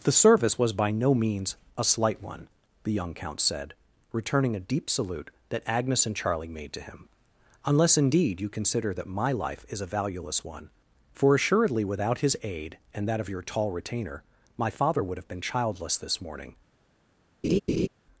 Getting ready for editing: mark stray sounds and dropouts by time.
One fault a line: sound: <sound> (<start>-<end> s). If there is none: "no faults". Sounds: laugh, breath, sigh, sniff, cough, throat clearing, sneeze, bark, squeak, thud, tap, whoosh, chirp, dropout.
sound: laugh (17.4-17.9 s)